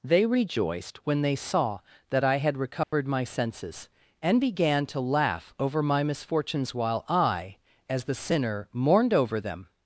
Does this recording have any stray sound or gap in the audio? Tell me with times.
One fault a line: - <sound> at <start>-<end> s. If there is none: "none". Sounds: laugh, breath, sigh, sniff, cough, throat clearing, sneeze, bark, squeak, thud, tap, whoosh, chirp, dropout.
- dropout at 2.8-2.9 s